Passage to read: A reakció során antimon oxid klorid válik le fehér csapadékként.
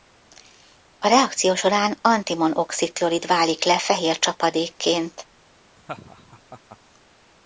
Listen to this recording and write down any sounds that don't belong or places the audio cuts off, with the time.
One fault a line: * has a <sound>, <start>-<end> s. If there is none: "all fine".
* has a laugh, 5.8-6.8 s